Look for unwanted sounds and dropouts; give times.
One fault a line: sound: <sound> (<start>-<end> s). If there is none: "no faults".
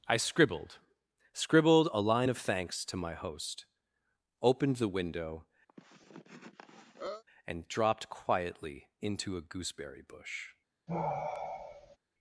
sound: cough (5.7-7.2 s)
sound: sigh (10.9-12.0 s)